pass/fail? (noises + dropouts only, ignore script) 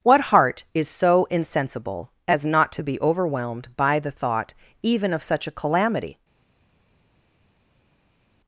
pass